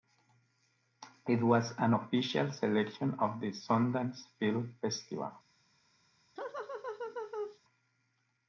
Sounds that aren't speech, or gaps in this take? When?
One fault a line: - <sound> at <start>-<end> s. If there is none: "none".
- laugh at 6.4-7.6 s